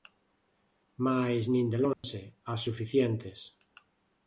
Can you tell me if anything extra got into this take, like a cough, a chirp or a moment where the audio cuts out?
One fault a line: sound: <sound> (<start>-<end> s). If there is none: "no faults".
sound: dropout (1.9-2.0 s)